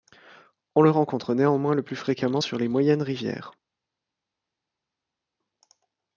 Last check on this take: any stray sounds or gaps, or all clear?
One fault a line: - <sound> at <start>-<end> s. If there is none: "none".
none